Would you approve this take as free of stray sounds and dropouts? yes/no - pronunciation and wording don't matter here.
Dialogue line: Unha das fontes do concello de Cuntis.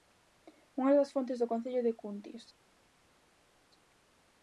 yes